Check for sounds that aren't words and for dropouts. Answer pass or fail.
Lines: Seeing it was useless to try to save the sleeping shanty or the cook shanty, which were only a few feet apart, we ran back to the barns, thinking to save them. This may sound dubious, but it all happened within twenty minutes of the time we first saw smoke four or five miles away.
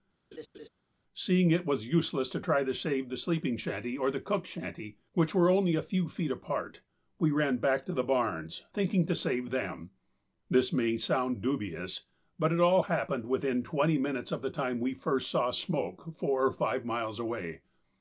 fail